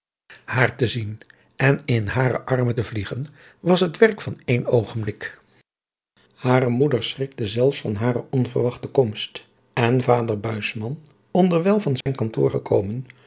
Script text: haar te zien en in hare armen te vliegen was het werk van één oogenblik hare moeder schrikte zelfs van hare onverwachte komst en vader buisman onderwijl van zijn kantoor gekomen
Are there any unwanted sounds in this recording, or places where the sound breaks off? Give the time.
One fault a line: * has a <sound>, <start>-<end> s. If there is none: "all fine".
* has a dropout, 12.0-12.1 s